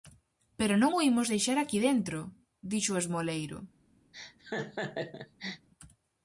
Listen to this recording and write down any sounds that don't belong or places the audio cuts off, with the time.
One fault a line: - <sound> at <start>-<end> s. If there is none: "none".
- laugh at 4.1-5.7 s